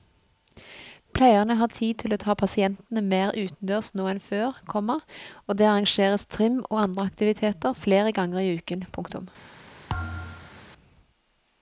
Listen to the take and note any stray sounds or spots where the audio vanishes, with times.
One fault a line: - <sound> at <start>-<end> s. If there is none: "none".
- thud at 9.9-10.7 s